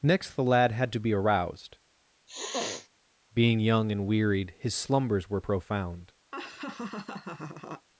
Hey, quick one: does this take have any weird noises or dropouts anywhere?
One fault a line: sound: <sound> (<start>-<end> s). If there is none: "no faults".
sound: sniff (2.3-2.9 s)
sound: laugh (6.3-7.9 s)